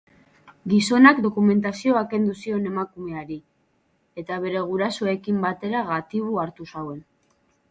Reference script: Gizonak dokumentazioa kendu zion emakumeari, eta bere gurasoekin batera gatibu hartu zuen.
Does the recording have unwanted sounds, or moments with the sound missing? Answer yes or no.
no